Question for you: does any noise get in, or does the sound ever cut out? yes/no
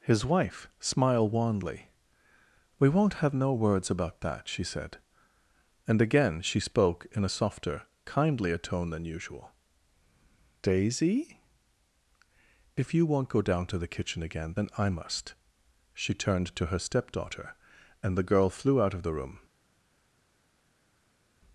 no